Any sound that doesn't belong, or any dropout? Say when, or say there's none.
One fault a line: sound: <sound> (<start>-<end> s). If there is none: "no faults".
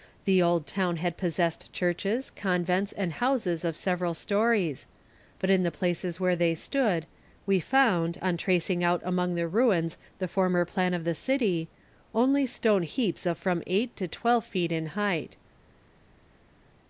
no faults